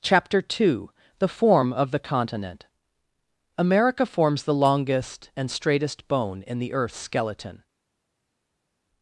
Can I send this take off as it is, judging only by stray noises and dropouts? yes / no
yes